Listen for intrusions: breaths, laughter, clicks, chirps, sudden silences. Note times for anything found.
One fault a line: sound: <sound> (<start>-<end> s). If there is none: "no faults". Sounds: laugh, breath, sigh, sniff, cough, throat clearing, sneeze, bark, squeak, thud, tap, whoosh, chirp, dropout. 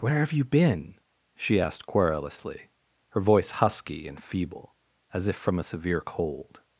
no faults